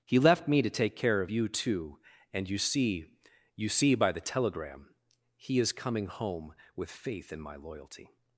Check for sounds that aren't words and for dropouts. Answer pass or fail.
pass